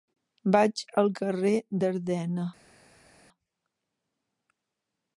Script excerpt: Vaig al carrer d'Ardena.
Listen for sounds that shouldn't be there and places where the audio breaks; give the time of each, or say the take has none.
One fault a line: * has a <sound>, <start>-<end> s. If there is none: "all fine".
all fine